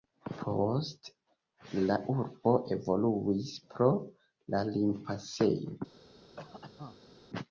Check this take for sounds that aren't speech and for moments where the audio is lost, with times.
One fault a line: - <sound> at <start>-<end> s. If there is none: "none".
- cough at 6.4-7.1 s